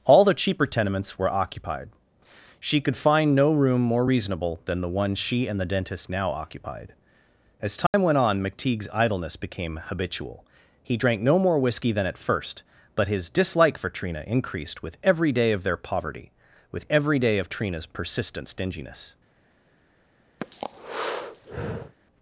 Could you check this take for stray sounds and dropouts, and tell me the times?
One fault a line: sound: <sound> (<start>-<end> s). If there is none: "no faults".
sound: dropout (7.9-7.9 s)
sound: breath (20.4-22.0 s)